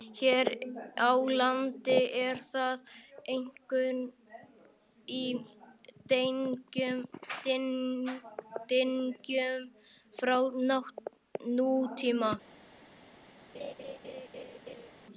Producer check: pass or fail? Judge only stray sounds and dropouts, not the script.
fail